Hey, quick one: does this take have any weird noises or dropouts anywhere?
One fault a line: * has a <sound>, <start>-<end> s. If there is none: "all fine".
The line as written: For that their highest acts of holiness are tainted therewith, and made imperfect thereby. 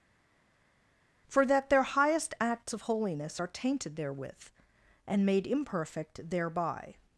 all fine